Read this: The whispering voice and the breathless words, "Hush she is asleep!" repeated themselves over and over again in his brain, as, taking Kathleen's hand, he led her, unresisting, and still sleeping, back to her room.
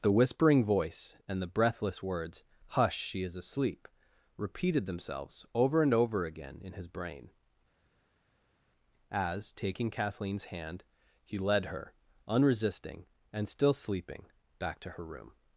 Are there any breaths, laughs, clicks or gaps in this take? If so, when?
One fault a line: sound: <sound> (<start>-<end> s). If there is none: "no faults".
no faults